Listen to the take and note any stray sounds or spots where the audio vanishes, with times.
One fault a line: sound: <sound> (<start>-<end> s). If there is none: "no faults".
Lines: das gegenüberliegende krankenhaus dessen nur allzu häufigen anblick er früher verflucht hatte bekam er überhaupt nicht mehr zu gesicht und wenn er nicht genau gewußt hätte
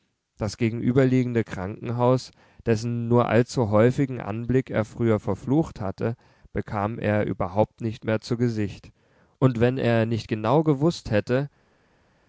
no faults